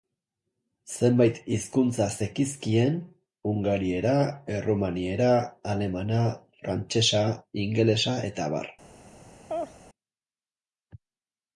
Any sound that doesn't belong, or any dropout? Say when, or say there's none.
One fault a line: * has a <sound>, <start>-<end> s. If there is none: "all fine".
* has a laugh, 9.5-9.8 s